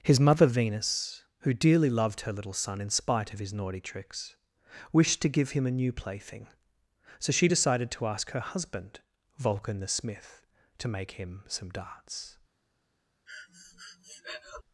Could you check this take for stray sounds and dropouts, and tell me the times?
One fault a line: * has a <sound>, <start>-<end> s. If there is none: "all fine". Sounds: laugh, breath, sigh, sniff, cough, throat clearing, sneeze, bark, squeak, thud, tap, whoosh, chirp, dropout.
* has a breath, 13.3-14.6 s